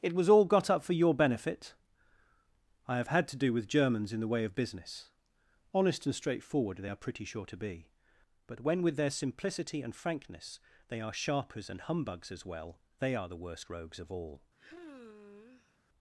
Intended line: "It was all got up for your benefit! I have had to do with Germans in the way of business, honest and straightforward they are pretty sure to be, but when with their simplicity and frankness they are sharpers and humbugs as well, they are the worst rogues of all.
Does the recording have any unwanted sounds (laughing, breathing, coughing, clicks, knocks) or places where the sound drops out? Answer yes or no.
yes